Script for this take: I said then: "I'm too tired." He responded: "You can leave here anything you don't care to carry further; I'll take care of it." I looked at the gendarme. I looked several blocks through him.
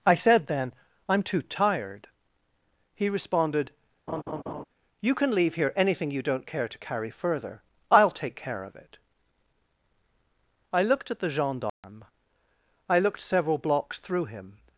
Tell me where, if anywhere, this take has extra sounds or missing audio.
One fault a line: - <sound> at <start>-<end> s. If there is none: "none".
- laugh at 4.1-4.6 s
- dropout at 11.7-11.8 s